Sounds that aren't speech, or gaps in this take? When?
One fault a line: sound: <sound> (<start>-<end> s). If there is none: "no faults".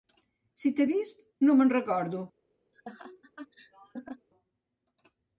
sound: laugh (2.7-4.3 s)